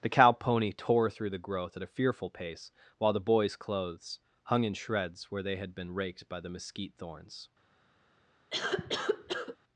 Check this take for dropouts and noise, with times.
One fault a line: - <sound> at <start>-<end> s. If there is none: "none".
- cough at 8.5-9.6 s